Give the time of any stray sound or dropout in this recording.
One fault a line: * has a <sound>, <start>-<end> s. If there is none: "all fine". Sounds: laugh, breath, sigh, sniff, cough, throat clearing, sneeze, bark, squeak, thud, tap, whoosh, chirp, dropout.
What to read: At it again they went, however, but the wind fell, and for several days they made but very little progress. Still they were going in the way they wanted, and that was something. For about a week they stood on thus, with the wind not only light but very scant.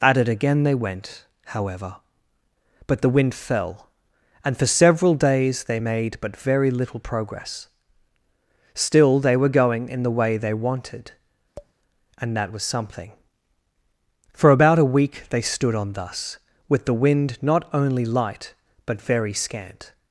* has a tap, 11.6-11.7 s